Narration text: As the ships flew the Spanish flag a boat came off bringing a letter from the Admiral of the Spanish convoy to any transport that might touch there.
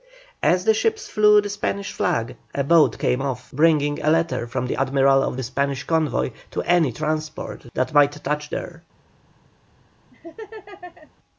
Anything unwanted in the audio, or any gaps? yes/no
yes